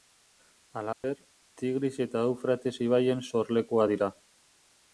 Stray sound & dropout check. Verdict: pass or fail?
fail